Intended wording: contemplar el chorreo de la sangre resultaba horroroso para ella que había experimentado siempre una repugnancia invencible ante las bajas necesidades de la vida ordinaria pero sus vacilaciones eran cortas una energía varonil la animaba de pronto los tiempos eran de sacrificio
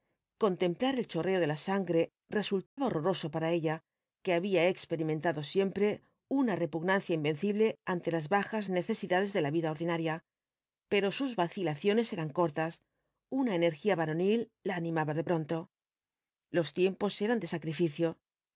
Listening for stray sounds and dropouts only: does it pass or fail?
fail